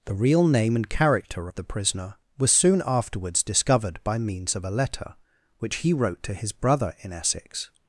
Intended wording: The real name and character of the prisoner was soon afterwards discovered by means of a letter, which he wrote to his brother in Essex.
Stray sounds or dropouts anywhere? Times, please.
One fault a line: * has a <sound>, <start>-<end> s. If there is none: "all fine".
all fine